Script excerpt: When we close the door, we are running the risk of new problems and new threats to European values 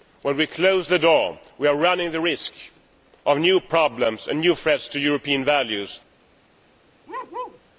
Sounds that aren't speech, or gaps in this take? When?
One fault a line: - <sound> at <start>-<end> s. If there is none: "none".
- bark at 7.1-7.6 s